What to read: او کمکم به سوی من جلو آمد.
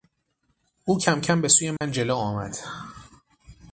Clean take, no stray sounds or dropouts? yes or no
no